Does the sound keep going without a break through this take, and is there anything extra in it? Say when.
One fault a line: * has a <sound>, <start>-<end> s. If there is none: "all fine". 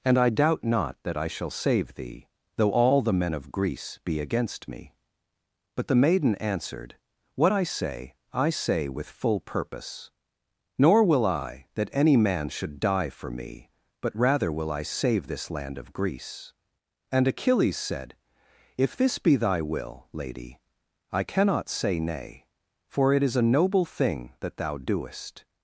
all fine